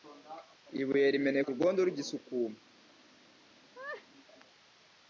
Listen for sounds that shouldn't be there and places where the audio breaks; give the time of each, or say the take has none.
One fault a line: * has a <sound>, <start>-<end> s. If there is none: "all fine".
* has a laugh, 3.7-4.1 s